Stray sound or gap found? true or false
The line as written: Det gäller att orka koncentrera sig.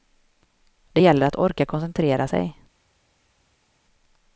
false